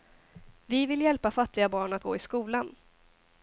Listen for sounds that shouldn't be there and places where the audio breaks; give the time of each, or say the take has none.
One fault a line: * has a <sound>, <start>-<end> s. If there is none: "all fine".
all fine